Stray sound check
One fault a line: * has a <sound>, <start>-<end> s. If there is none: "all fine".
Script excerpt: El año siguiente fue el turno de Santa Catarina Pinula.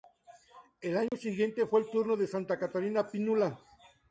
* has a dropout, 1.1-1.1 s